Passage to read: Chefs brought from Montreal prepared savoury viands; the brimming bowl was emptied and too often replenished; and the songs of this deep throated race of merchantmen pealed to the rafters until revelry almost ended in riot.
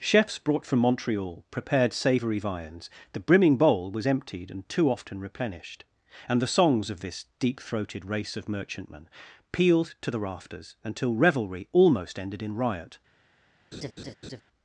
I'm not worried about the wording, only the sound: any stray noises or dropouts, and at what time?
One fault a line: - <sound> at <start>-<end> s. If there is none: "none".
- laugh at 13.7-14.4 s